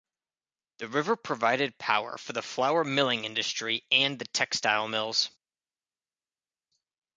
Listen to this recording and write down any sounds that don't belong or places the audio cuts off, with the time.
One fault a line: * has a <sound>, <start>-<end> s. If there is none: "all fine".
all fine